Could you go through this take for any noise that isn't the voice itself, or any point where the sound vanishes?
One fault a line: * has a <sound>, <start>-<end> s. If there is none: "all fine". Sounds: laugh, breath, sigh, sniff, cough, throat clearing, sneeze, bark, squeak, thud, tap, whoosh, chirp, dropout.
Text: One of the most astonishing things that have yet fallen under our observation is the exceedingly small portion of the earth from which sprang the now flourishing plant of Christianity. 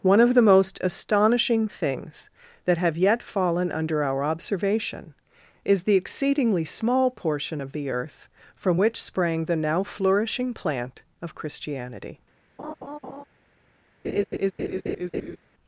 * has a laugh, 12.6-13.2 s
* has a laugh, 14.0-15.4 s